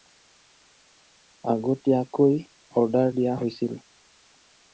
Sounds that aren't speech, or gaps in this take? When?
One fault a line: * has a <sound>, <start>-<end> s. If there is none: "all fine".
all fine